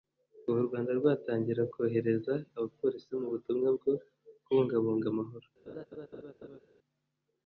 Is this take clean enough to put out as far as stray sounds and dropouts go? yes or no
no